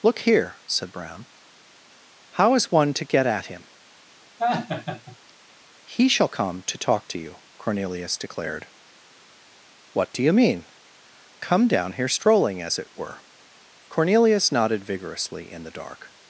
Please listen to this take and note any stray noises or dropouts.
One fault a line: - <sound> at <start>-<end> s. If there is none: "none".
- laugh at 4.4-5.2 s